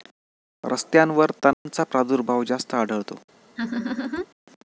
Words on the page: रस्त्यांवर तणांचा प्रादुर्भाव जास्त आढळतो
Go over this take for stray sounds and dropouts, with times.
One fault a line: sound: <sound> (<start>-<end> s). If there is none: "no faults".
sound: dropout (1.5-1.7 s)
sound: laugh (3.6-4.3 s)